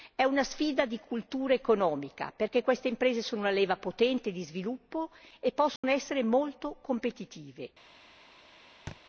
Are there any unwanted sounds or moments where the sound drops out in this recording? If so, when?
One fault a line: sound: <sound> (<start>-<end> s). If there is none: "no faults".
sound: dropout (5.8-5.8 s)
sound: thud (8.9-9.0 s)